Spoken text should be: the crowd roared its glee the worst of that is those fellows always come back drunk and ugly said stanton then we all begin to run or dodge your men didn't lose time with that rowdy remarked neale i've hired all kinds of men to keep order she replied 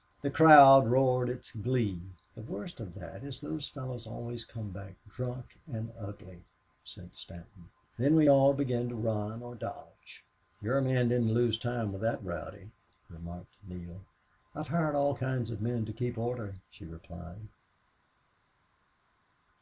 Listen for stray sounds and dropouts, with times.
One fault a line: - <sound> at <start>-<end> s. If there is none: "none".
none